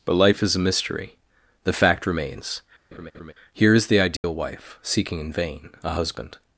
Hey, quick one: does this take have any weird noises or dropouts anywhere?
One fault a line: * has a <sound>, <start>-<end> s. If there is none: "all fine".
* has a laugh, 2.9-3.3 s
* has a dropout, 4.2-4.2 s